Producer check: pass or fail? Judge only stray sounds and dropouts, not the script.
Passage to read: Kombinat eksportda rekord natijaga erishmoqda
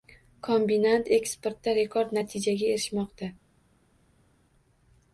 pass